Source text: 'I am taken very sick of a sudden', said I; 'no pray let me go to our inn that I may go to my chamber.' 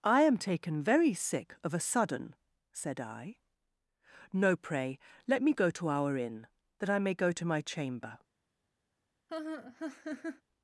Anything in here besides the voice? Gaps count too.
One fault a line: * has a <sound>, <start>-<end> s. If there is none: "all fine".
* has a laugh, 9.3-10.4 s